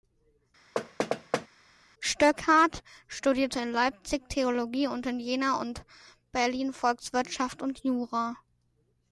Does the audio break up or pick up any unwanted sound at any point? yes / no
yes